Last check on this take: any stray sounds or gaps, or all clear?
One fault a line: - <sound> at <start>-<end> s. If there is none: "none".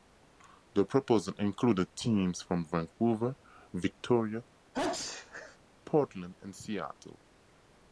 - sneeze at 4.7-5.6 s